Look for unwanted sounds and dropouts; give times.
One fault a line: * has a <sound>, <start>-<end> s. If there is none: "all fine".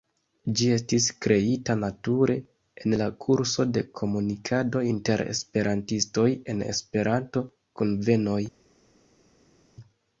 all fine